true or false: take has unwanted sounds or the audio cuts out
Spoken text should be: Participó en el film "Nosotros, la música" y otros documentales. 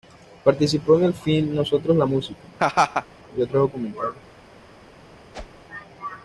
true